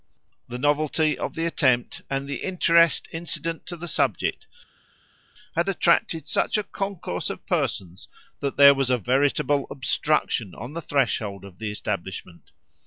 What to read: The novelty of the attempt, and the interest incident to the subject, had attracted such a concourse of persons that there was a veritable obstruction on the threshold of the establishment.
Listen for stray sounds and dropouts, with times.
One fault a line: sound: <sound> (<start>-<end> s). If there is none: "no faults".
no faults